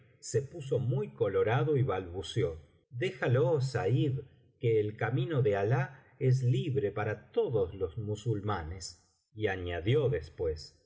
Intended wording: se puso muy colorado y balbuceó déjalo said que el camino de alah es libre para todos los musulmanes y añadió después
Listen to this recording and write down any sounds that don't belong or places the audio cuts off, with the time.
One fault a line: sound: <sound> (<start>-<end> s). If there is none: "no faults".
no faults